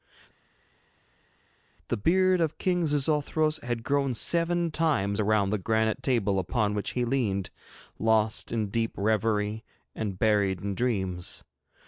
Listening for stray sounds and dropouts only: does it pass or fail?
pass